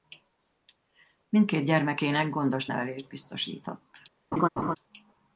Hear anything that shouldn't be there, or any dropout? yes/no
yes